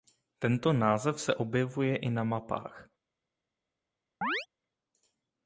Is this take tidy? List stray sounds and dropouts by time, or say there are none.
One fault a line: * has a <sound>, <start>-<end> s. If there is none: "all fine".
* has a chirp, 4.2-4.5 s